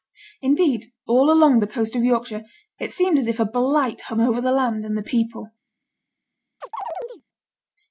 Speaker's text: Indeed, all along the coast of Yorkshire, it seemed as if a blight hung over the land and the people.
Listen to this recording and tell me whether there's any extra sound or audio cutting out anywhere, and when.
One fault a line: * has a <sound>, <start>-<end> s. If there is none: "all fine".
* has a chirp, 6.6-7.2 s